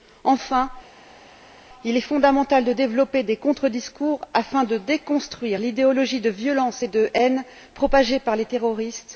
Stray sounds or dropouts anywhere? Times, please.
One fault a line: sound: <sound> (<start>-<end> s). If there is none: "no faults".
no faults